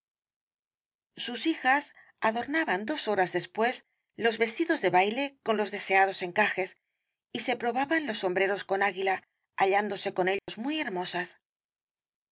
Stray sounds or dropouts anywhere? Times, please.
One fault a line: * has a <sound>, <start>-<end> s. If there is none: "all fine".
* has a dropout, 10.4-10.5 s